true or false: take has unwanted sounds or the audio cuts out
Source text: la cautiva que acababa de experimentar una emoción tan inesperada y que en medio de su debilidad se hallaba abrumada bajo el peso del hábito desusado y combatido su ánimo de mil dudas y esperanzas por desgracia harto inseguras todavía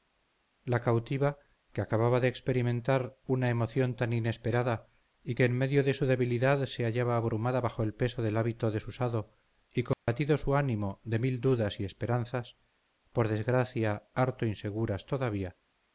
true